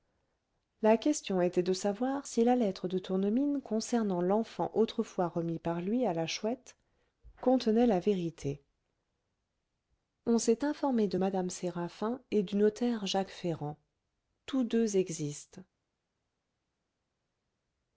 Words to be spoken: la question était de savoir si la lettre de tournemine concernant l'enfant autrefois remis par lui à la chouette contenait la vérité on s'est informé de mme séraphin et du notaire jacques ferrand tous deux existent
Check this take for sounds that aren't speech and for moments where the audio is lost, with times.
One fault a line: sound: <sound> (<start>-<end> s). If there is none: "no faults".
no faults